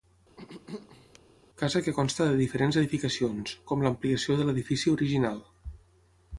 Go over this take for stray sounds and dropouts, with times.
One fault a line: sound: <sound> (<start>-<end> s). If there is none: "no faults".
sound: throat clearing (0.4-1.2 s)